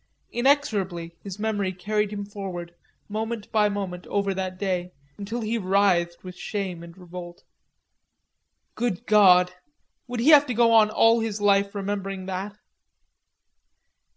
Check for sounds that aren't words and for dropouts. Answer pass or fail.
pass